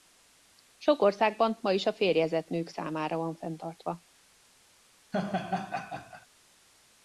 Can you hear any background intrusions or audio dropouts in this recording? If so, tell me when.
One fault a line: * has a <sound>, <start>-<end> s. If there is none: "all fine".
* has a laugh, 5.1-6.3 s